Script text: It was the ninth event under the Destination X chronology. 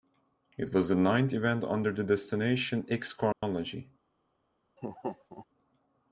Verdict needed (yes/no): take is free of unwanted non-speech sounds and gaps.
no